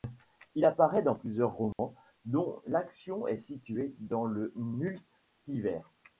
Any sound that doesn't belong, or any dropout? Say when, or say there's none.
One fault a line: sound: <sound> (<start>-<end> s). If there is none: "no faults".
sound: dropout (1.7-1.8 s)